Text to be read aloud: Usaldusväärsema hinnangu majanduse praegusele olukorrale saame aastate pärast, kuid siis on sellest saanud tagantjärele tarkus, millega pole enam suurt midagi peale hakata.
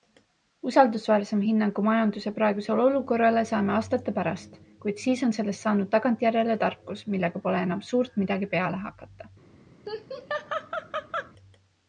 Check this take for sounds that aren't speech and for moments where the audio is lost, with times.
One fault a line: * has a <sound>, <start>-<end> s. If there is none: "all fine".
* has a laugh, 9.9-11.3 s